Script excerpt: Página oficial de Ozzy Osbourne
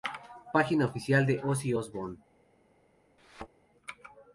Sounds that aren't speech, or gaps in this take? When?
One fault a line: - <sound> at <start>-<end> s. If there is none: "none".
- thud at 3.2-3.5 s